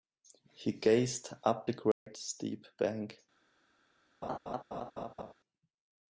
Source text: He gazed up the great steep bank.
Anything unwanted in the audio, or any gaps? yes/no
yes